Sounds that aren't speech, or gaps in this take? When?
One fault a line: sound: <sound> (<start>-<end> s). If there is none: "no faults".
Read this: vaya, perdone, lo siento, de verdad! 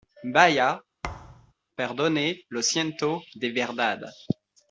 sound: thud (1.0-1.5 s)